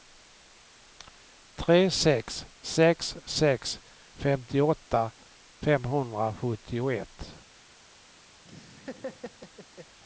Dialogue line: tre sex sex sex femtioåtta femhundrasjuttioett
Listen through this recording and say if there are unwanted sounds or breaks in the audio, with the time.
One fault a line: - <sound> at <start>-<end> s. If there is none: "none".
- laugh at 8.4-10.0 s